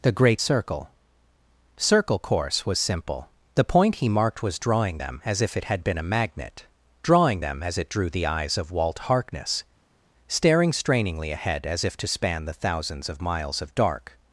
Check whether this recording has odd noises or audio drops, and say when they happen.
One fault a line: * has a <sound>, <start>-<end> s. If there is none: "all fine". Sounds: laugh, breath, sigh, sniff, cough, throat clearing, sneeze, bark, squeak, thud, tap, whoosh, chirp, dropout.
all fine